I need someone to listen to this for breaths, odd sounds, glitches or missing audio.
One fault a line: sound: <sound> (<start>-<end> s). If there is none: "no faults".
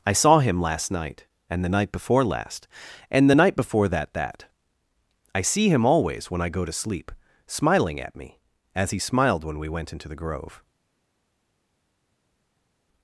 no faults